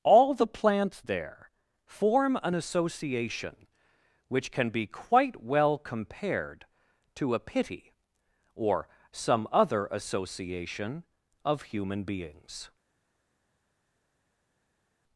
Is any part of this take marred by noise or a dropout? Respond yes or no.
no